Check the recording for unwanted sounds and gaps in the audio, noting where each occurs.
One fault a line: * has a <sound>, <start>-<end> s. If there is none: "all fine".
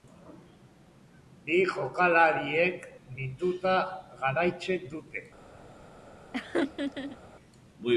* has a laugh, 6.3-7.2 s